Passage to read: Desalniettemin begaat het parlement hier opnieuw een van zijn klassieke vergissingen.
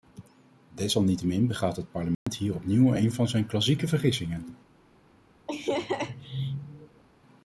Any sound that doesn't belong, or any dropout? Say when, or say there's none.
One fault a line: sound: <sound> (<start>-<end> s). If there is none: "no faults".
sound: dropout (2.1-2.3 s)
sound: laugh (5.5-7.0 s)